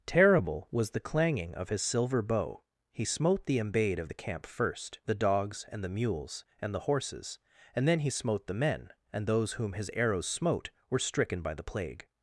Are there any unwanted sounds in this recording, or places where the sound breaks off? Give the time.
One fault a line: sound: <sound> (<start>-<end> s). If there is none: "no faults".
no faults